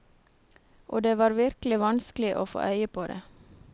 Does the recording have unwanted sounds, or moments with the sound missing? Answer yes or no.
no